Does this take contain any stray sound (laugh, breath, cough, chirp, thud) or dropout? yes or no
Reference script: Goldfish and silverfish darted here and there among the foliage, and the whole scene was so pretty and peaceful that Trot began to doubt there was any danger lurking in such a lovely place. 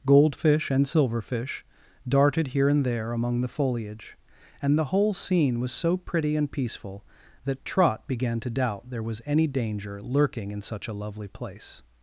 no